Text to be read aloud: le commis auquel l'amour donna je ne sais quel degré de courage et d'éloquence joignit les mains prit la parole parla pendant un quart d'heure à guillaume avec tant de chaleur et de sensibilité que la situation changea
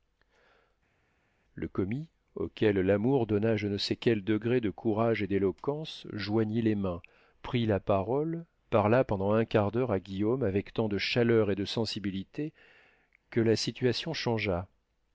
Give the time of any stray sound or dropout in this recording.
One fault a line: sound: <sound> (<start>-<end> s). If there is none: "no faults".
no faults